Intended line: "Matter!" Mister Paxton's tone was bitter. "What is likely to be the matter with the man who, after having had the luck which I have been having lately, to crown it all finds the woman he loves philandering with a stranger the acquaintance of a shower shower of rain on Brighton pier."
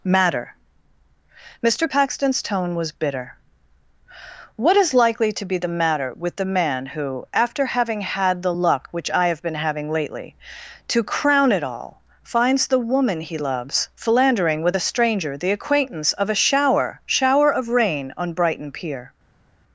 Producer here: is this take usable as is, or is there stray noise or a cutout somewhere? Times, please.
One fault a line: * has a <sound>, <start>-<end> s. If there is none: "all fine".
all fine